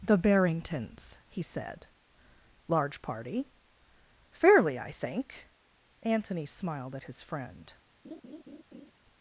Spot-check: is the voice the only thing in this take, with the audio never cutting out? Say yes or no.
no